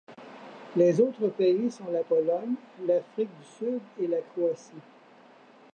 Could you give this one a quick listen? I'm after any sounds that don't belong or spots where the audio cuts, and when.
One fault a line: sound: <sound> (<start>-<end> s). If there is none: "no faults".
no faults